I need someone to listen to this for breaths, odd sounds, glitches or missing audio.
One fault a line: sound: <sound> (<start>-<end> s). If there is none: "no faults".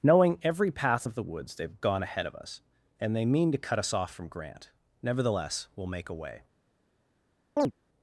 sound: chirp (7.6-7.7 s)